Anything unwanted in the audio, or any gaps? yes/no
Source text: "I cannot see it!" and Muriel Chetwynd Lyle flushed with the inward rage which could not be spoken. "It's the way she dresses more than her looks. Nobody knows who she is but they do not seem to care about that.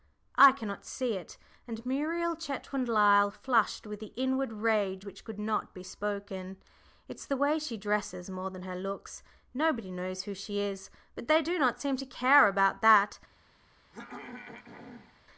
yes